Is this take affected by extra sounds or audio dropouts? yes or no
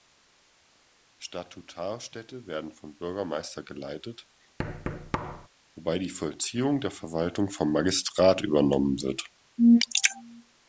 yes